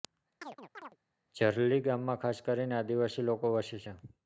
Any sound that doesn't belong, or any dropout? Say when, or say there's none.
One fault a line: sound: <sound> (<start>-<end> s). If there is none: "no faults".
sound: chirp (0.4-1.0 s)